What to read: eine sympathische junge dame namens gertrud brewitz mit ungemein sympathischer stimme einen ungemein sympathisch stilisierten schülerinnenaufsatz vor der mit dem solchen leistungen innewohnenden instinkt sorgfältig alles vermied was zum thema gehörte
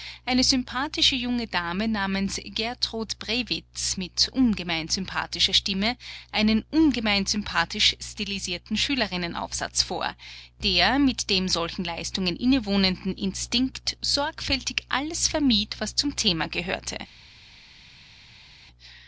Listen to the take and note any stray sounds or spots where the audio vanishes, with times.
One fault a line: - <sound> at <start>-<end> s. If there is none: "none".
none